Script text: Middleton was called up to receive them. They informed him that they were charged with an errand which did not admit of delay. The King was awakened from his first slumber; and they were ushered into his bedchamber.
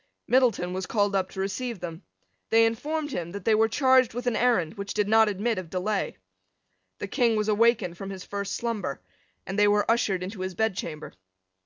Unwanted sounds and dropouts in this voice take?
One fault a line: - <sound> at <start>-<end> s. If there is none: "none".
none